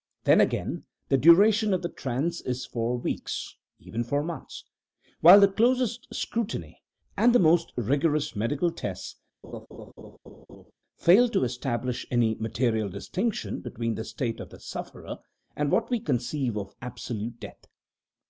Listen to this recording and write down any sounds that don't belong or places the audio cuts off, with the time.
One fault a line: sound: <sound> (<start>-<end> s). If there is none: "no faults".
sound: laugh (9.4-10.7 s)